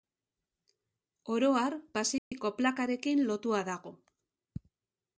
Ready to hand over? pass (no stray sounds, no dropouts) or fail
fail